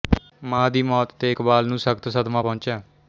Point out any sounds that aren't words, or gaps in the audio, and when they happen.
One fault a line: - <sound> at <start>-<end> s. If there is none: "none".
none